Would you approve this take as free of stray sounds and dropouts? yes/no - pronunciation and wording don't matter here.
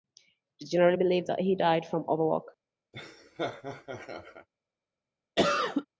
no